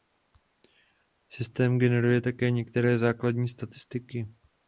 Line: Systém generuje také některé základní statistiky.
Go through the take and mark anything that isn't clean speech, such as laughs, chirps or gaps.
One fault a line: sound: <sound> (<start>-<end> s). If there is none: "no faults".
no faults